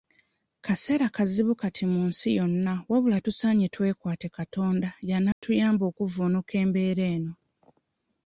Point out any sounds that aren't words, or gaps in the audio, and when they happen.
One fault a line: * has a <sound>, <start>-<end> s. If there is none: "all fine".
* has a dropout, 5.3-5.4 s